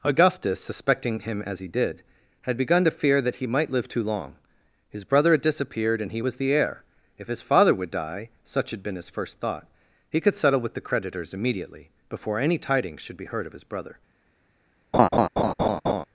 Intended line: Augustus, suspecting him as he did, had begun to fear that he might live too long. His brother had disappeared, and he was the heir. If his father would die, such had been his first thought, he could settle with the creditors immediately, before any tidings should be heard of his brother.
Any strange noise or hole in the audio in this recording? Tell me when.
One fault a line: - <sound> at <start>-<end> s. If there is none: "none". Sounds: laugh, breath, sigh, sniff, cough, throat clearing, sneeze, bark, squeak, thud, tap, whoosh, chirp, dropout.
- laugh at 14.9-16.1 s